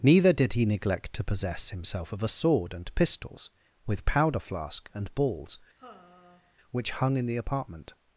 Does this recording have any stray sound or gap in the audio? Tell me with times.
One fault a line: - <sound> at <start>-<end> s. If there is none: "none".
- sigh at 5.8-6.6 s